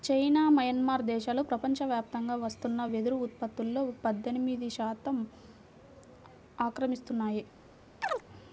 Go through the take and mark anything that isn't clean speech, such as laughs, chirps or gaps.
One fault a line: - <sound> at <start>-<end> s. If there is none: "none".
- chirp at 8.0-8.2 s